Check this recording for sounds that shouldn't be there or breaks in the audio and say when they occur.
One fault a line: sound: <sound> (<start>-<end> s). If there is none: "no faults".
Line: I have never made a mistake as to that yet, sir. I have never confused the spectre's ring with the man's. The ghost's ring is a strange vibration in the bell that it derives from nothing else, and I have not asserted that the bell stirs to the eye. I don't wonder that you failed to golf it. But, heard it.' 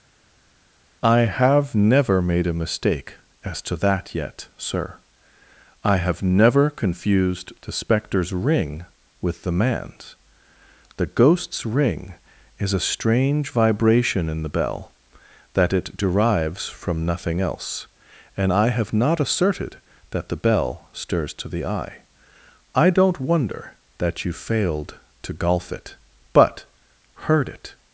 no faults